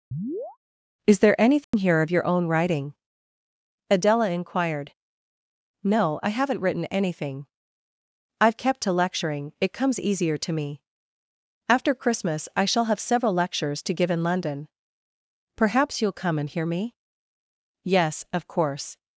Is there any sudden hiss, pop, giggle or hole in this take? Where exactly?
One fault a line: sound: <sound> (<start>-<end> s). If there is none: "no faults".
sound: chirp (0.1-0.6 s)
sound: dropout (1.6-1.7 s)